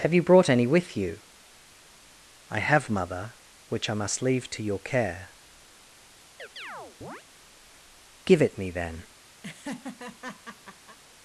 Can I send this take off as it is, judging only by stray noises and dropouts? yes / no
no